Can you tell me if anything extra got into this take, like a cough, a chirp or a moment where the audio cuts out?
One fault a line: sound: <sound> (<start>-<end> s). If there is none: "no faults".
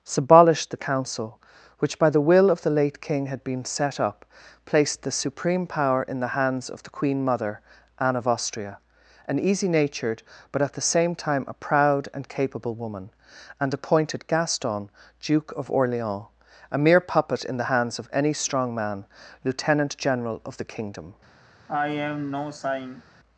sound: sigh (21.7-23.0 s)